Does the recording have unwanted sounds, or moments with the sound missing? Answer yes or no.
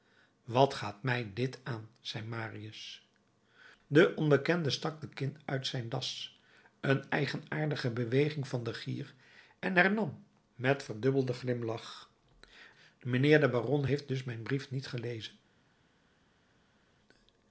no